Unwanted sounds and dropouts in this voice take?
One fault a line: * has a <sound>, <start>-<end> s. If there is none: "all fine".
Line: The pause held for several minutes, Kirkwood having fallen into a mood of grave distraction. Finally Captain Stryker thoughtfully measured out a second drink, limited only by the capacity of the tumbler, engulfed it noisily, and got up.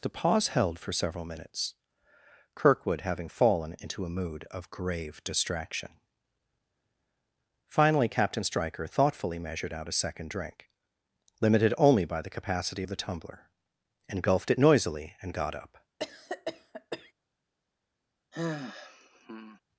* has a cough, 16.0-17.1 s
* has a sigh, 18.3-19.6 s